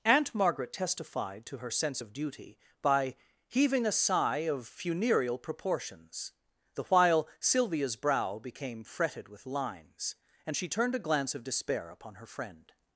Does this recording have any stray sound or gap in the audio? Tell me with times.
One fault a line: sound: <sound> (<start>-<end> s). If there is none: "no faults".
no faults